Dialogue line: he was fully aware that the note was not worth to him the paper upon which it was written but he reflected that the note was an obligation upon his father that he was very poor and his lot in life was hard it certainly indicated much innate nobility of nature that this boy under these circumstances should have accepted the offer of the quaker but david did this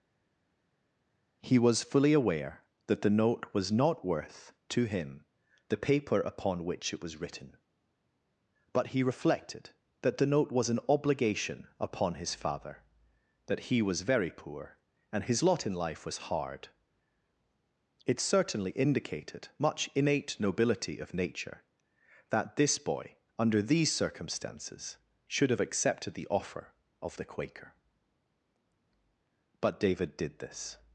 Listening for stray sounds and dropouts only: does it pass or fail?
pass